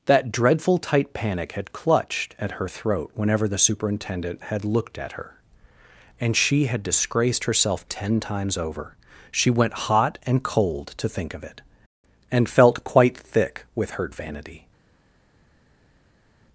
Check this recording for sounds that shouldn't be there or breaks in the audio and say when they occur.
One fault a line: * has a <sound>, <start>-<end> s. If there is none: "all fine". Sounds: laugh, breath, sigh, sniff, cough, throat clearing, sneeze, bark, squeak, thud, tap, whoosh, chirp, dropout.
all fine